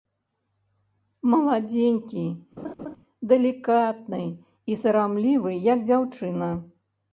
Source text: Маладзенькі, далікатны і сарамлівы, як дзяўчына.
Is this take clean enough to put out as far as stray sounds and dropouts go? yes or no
no